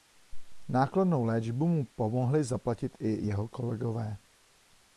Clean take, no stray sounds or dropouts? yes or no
yes